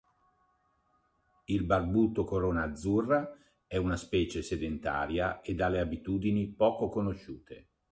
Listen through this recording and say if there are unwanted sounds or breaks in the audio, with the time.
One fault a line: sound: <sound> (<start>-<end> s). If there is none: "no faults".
no faults